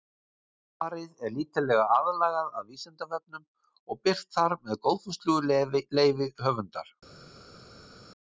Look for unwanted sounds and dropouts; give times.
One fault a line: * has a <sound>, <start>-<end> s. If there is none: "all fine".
all fine